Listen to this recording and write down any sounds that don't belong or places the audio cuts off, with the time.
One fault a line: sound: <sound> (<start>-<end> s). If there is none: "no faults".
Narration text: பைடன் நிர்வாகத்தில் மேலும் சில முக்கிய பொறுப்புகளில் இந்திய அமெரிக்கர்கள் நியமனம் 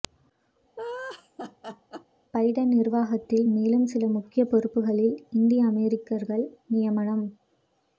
sound: laugh (0.8-2.1 s)